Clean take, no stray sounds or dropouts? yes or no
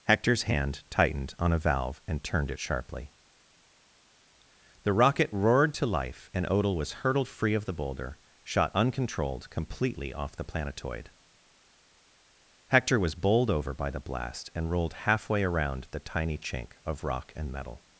yes